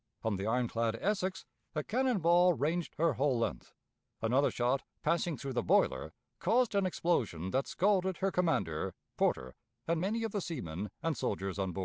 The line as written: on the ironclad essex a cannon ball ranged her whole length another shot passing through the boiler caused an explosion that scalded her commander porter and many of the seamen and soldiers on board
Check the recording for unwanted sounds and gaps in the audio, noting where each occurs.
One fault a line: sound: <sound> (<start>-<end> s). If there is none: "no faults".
no faults